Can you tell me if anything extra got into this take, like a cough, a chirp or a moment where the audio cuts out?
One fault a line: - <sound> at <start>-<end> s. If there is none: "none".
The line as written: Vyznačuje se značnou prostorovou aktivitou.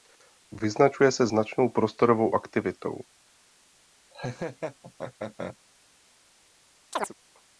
- laugh at 4.1-5.6 s
- chirp at 6.9-7.1 s